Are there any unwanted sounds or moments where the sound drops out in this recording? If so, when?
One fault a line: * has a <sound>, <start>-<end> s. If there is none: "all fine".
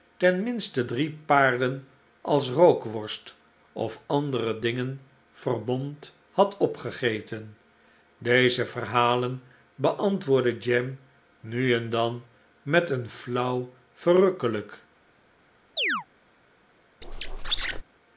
* has a chirp, 15.8-16.1 s
* has a squeak, 17.0-17.8 s